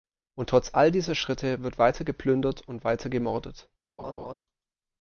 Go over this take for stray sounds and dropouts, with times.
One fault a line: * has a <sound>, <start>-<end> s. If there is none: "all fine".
* has a laugh, 4.0-4.3 s